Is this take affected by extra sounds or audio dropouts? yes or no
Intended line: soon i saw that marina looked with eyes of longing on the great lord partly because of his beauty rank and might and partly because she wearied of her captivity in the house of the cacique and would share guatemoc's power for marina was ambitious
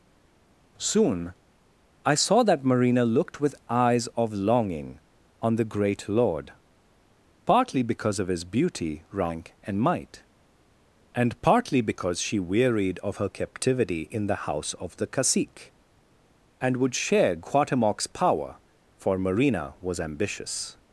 no